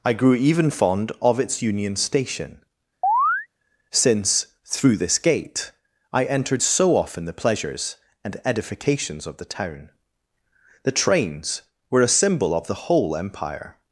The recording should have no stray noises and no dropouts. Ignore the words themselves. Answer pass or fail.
fail